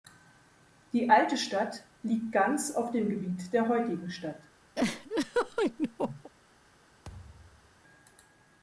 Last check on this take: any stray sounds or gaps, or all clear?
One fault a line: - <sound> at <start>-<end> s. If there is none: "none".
- laugh at 4.7-6.3 s
- thud at 7.0-7.8 s